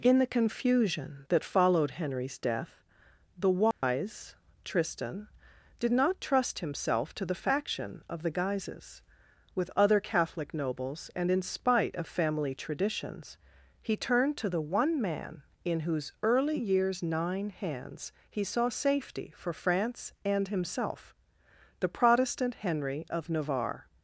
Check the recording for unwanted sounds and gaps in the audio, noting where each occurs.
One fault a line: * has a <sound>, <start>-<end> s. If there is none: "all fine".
* has a dropout, 3.7-3.8 s